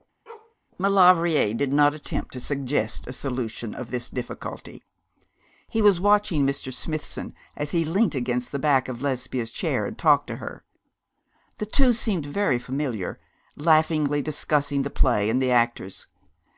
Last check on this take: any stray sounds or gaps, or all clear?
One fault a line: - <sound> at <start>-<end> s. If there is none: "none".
- bark at 0.3-0.6 s